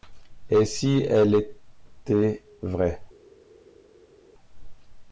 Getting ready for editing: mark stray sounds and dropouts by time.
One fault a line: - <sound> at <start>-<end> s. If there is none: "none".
none